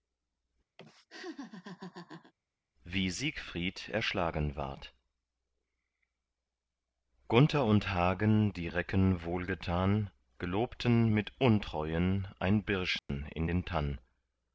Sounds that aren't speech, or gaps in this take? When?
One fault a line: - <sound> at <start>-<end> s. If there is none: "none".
- laugh at 0.8-2.3 s
- dropout at 13.0-13.1 s